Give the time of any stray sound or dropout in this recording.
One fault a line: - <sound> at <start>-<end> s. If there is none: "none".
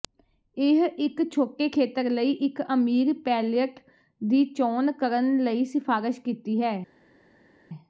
none